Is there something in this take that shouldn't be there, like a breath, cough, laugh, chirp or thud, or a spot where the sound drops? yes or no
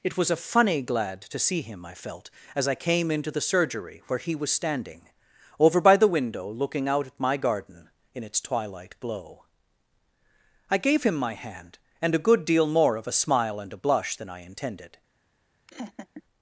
yes